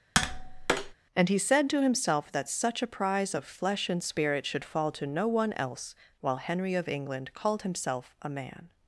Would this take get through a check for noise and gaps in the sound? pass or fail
fail